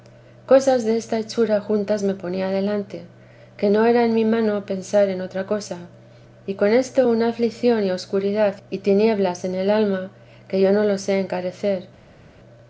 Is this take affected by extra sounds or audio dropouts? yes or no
no